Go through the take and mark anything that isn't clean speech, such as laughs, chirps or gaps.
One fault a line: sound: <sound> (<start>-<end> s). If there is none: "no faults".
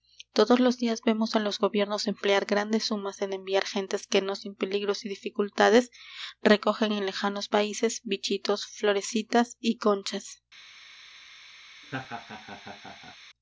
sound: laugh (11.8-13.2 s)